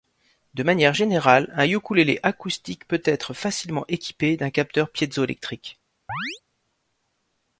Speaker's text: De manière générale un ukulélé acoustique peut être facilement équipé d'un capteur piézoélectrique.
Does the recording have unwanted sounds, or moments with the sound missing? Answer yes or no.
yes